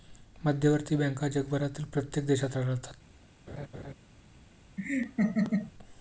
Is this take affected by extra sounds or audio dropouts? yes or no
yes